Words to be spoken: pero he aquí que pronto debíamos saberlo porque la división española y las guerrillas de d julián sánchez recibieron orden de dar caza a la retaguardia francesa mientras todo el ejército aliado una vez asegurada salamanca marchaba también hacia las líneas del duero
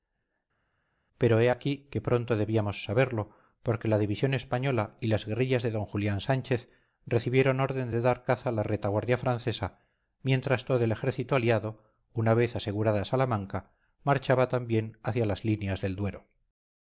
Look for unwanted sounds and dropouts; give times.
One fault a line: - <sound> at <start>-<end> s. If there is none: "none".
none